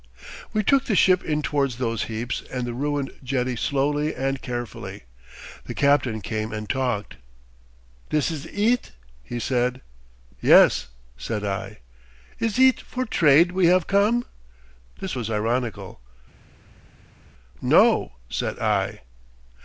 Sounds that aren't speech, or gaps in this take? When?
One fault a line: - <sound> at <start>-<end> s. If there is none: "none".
none